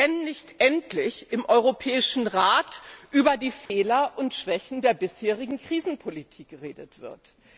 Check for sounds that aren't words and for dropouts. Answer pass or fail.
fail